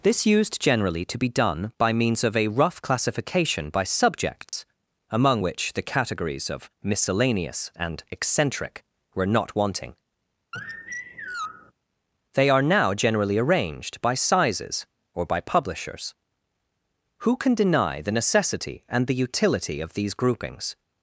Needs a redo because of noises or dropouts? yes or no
yes